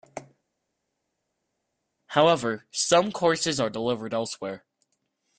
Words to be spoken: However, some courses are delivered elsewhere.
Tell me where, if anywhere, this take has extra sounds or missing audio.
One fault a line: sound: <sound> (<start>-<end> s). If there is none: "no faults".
no faults